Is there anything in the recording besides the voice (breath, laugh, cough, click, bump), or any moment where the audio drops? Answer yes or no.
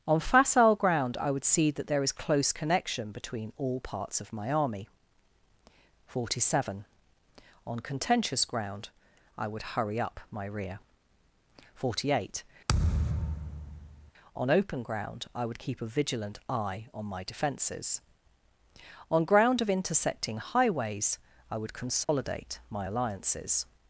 yes